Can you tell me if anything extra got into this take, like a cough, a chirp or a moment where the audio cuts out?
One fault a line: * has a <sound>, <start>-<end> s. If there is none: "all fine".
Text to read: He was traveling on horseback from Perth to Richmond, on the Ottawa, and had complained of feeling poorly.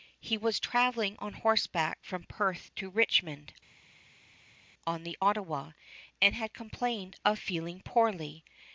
all fine